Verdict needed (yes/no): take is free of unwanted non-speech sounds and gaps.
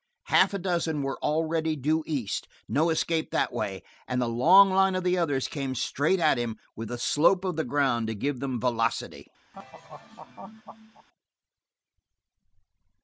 no